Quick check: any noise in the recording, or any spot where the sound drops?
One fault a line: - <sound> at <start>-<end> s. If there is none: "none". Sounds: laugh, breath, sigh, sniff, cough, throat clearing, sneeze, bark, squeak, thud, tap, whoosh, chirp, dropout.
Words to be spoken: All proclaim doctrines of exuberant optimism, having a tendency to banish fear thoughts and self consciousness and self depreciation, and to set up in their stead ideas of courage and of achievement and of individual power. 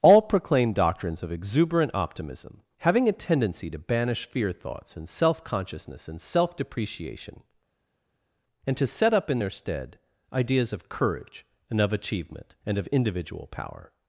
none